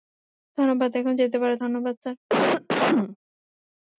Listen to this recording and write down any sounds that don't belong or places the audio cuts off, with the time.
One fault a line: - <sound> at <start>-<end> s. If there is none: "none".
- cough at 2.3-3.2 s